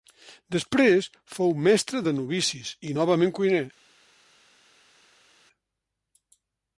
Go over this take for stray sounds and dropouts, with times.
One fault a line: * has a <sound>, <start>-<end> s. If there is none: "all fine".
all fine